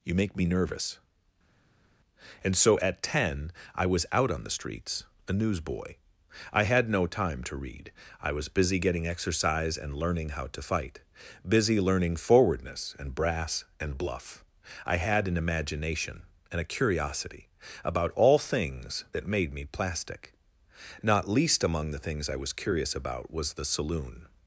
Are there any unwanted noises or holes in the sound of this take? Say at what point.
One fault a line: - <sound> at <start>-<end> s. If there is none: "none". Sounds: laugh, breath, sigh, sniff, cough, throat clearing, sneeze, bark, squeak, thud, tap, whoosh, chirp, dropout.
none